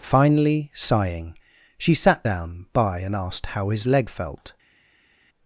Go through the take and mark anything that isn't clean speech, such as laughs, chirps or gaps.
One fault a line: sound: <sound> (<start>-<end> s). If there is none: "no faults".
no faults